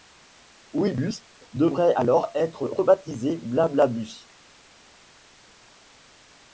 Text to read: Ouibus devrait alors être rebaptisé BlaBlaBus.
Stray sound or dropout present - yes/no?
no